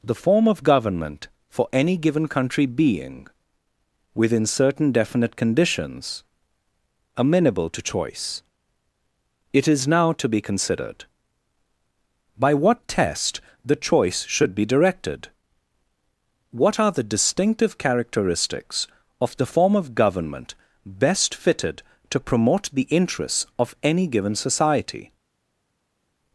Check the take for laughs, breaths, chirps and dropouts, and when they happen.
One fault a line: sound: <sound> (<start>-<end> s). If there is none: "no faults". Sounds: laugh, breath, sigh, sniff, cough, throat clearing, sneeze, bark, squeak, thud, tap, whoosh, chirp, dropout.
no faults